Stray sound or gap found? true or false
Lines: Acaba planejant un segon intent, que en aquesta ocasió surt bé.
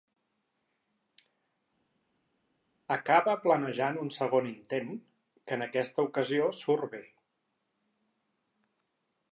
false